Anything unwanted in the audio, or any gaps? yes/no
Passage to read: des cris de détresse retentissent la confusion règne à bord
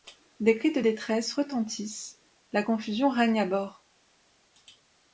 no